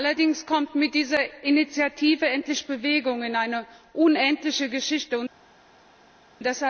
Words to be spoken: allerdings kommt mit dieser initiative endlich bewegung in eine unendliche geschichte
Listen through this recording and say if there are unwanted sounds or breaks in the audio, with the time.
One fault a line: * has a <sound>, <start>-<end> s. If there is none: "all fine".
all fine